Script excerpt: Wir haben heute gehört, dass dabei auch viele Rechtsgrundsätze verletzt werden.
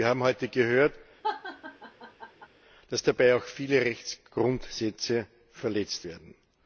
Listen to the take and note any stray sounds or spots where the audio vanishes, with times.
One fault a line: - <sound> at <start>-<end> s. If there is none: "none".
- laugh at 1.2-2.5 s